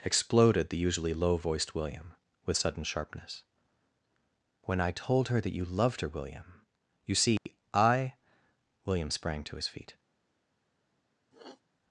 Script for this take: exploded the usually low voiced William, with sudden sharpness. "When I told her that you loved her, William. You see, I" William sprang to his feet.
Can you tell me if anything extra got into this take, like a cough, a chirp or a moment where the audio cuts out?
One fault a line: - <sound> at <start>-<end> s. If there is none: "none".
- dropout at 7.4-7.5 s
- sniff at 11.3-11.6 s